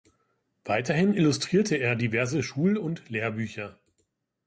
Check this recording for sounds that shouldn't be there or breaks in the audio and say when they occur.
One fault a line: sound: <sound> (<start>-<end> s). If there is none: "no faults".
no faults